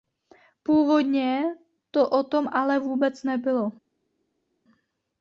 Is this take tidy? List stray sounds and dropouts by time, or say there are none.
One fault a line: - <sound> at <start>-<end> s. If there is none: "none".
none